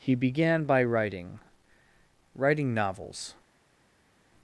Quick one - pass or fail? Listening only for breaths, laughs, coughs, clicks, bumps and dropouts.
pass